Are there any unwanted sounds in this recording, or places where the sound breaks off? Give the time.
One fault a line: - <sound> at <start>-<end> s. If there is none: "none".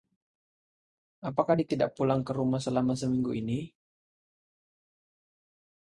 none